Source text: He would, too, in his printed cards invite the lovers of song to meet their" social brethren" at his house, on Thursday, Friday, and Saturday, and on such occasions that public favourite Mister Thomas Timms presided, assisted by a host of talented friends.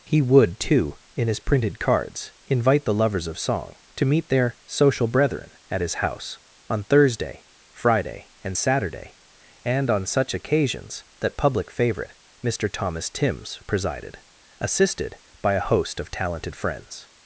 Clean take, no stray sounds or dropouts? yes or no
yes